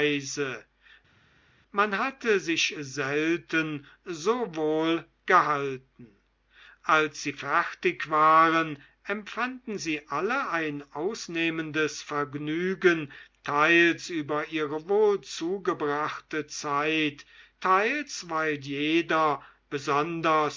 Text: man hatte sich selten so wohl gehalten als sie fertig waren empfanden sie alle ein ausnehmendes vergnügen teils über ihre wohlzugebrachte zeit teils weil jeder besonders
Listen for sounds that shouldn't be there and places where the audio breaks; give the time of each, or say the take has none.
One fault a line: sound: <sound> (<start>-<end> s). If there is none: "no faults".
no faults